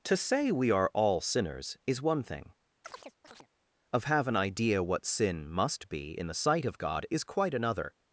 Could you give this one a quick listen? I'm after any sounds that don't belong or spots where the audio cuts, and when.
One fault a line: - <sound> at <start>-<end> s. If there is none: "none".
- chirp at 2.8-3.5 s